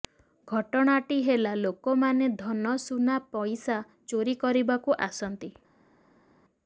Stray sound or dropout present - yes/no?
no